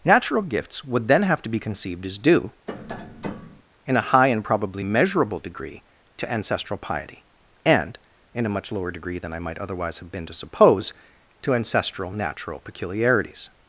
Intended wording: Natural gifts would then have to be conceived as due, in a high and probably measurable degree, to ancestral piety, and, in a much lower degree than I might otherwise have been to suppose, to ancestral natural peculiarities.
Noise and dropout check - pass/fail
fail